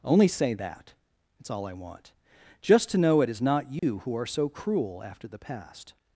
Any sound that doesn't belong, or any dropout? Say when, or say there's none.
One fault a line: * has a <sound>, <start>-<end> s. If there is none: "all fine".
* has a dropout, 3.8-3.8 s